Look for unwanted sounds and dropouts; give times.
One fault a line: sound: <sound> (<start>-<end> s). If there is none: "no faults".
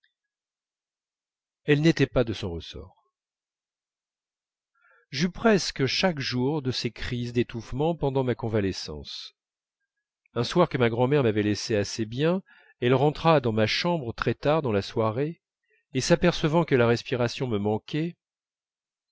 no faults